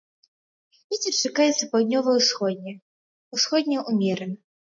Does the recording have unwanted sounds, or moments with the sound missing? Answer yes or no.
no